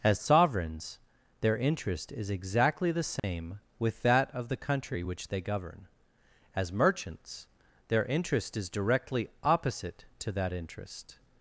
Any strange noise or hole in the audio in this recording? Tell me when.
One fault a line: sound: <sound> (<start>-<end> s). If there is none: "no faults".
sound: dropout (3.2-3.2 s)